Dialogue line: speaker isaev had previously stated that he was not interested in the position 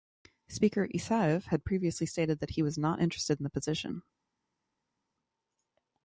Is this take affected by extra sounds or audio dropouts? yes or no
no